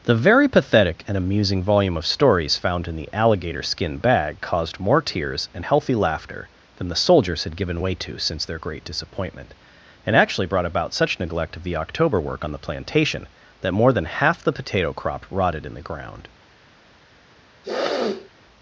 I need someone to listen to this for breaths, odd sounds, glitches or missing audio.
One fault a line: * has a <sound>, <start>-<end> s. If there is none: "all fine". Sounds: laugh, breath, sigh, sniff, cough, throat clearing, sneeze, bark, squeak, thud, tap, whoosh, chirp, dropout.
* has a sniff, 17.6-18.3 s